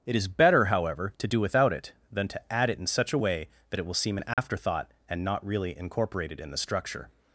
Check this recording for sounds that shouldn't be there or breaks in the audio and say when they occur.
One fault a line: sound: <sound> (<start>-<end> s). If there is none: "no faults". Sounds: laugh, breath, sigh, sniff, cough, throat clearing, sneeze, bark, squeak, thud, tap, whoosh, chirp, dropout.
sound: dropout (4.3-4.4 s)